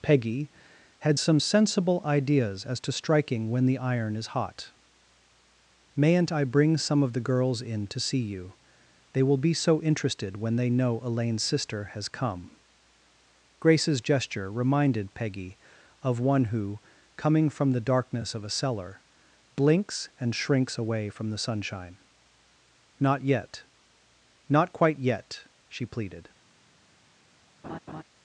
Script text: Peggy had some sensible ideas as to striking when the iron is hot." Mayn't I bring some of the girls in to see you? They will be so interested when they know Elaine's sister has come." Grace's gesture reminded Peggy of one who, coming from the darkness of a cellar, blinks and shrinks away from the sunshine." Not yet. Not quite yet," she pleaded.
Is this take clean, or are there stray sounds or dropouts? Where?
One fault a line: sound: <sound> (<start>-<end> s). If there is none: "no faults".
sound: laugh (27.6-28.0 s)